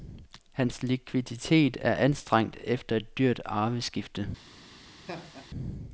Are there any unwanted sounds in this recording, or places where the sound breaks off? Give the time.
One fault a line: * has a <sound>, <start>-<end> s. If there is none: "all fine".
* has a laugh, 5.1-5.5 s